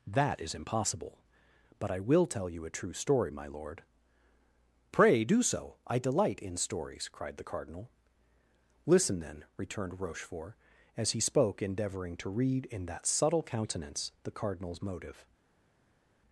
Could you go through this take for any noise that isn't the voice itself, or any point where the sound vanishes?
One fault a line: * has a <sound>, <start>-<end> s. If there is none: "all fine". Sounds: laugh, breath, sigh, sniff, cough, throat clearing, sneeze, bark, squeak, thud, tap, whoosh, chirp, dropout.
all fine